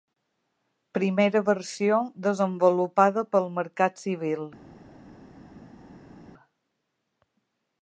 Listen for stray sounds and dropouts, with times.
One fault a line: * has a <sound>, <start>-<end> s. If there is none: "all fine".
all fine